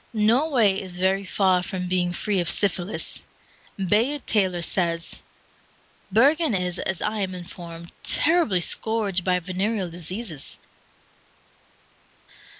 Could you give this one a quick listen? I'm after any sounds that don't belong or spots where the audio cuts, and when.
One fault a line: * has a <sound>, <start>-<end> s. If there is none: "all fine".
all fine